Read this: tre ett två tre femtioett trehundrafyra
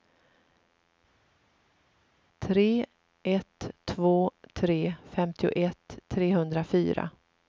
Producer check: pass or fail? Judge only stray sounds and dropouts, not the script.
pass